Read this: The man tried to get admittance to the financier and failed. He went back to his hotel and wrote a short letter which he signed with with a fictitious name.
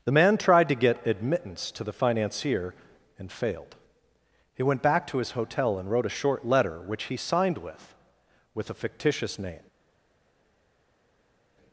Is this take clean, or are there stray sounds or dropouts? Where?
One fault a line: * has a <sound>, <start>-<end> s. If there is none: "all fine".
all fine